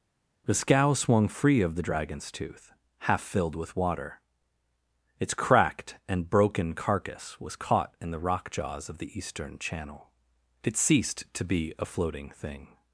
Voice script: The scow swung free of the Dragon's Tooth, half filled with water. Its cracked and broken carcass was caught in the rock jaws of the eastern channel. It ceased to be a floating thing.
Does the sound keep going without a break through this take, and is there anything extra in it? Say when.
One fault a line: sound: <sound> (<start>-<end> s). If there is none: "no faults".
no faults